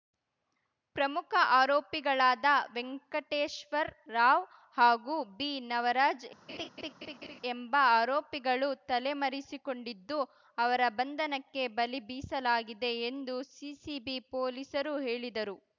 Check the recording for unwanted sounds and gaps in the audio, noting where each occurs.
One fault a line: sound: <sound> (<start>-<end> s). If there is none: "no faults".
sound: laugh (6.5-7.4 s)